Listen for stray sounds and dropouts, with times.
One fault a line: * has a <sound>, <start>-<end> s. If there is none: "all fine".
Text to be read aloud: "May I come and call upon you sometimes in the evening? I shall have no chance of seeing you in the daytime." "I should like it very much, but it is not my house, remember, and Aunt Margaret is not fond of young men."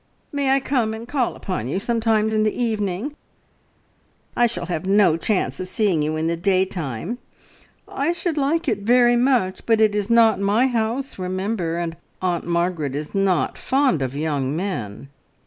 all fine